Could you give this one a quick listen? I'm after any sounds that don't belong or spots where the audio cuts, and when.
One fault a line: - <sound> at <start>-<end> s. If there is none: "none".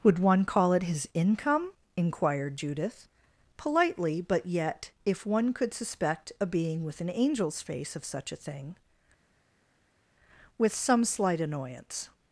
none